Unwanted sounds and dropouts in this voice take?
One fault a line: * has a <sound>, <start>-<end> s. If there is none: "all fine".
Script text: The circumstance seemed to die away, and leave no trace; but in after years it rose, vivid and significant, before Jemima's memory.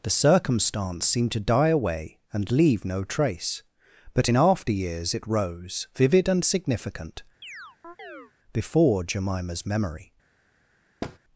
* has a chirp, 7.4-8.3 s
* has a thud, 11.0-11.2 s